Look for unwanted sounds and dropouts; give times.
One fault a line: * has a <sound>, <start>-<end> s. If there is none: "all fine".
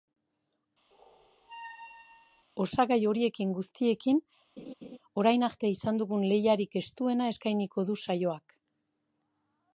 * has a squeak, 0.9-2.4 s
* has a laugh, 4.6-5.0 s